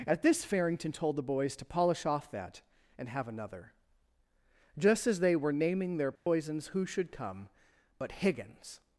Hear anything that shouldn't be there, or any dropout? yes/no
yes